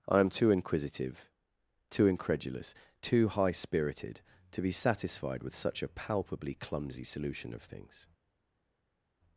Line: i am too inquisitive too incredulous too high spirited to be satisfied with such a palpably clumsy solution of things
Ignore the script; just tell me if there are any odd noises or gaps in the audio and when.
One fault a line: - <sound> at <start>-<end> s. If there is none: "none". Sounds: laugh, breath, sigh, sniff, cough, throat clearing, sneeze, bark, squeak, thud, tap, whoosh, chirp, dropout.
none